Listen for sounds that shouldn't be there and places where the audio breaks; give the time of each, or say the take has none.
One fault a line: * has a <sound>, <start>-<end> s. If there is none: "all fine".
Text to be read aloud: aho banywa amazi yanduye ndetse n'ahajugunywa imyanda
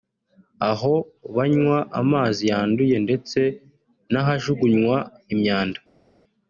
all fine